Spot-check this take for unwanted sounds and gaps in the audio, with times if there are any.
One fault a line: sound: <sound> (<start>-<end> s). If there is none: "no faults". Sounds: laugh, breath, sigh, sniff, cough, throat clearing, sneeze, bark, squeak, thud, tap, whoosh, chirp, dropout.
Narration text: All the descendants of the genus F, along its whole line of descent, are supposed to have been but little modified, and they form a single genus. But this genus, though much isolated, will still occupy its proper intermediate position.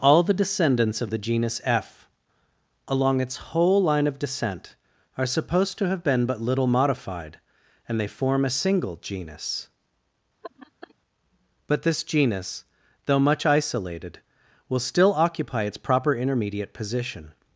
sound: laugh (10.4-10.9 s)